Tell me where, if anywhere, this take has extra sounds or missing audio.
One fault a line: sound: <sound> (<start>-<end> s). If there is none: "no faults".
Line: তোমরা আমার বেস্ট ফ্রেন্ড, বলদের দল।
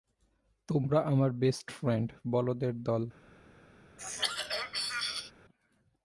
sound: throat clearing (4.0-5.3 s)